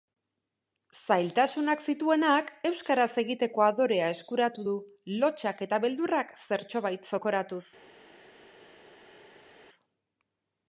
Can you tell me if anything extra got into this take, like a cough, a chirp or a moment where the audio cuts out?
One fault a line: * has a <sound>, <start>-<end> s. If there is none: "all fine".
all fine